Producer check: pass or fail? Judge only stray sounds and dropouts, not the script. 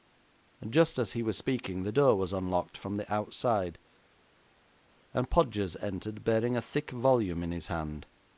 pass